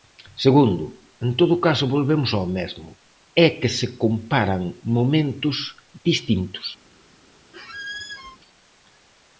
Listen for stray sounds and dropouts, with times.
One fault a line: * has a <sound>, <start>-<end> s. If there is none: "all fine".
* has a squeak, 7.5-8.4 s